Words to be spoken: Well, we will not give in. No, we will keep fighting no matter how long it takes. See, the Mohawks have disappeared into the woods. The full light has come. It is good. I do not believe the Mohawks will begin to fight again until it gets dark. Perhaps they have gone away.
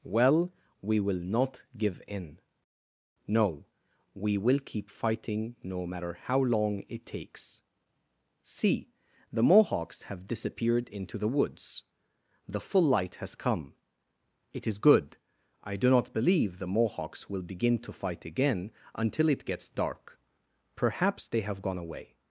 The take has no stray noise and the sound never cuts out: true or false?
true